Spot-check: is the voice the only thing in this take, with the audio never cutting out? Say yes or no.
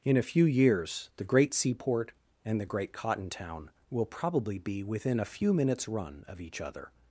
yes